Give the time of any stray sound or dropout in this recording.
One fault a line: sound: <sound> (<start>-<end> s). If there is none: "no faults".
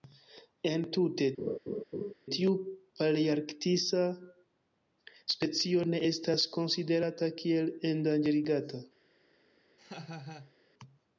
sound: laugh (1.4-2.1 s)
sound: laugh (9.8-10.5 s)